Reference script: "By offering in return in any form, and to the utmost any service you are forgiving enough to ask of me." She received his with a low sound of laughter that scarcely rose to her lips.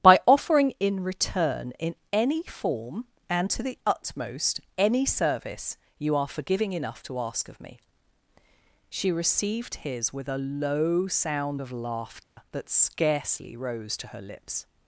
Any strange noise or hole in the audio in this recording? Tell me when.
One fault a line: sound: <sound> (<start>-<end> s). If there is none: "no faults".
sound: dropout (12.2-12.4 s)